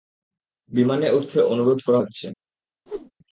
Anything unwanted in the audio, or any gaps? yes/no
yes